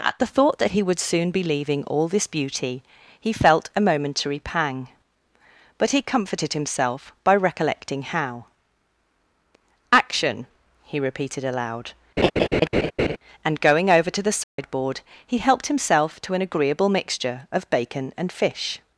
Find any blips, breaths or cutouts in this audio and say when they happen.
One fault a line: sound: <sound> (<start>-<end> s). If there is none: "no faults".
sound: laugh (12.2-13.2 s)
sound: dropout (14.4-14.6 s)